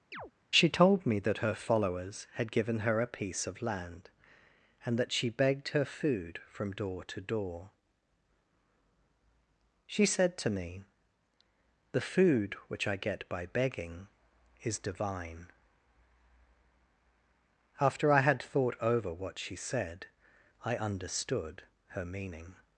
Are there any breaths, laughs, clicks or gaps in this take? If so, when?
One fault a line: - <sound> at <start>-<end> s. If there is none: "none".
- chirp at 0.1-0.3 s